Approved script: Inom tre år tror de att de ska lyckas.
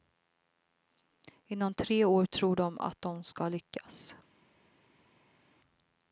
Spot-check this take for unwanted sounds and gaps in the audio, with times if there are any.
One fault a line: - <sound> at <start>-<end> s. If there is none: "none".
none